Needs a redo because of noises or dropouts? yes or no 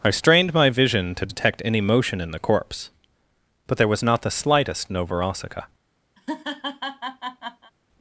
yes